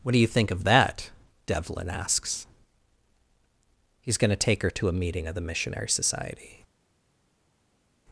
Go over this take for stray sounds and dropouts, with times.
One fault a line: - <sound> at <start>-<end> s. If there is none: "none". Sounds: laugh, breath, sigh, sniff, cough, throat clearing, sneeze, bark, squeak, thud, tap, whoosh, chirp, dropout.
none